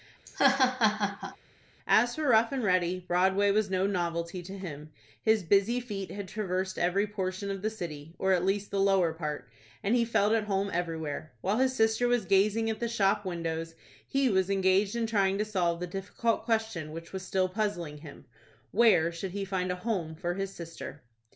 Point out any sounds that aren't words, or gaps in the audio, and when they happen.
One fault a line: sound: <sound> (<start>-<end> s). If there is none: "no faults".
sound: laugh (0.3-1.4 s)